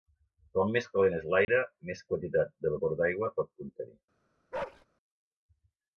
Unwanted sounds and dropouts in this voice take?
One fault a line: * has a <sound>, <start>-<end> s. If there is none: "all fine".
* has a dropout, 1.4-1.5 s
* has a bark, 4.5-4.9 s